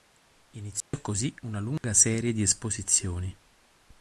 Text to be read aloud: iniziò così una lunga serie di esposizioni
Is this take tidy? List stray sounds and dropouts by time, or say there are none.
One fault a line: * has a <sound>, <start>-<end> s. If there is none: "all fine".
* has a dropout, 0.8-0.9 s
* has a dropout, 1.8-1.8 s